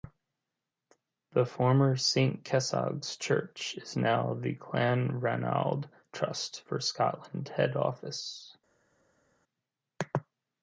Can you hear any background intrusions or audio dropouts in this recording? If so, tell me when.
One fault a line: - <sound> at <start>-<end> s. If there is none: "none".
none